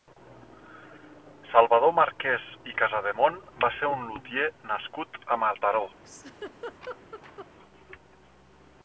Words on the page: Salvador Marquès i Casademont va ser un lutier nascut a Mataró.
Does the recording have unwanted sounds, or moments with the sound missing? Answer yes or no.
yes